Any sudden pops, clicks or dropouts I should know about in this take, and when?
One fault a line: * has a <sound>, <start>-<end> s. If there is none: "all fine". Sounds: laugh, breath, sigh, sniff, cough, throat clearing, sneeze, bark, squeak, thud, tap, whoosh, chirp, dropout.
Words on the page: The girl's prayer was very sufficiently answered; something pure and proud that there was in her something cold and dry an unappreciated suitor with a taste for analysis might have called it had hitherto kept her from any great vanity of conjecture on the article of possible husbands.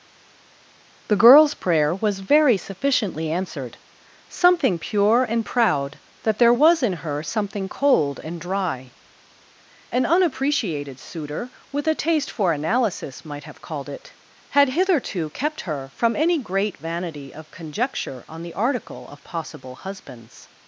all fine